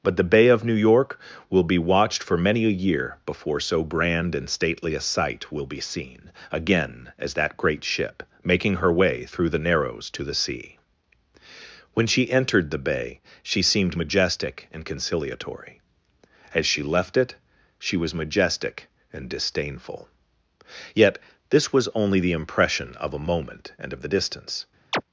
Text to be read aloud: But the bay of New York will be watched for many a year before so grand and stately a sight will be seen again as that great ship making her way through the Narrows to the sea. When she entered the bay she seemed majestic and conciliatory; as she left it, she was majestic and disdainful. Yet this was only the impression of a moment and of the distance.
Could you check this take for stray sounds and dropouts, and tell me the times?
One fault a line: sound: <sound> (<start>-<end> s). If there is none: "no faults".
sound: chirp (24.9-25.0 s)